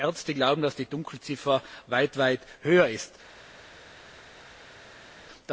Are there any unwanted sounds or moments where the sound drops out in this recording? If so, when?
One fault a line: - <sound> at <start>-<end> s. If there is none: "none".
none